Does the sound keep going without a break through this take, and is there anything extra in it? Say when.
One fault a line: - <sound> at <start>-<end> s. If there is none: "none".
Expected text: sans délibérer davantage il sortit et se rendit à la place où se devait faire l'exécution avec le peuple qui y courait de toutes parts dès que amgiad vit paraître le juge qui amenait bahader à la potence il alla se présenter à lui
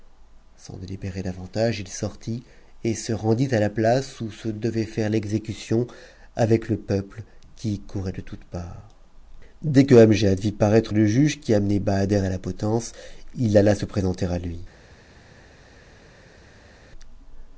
none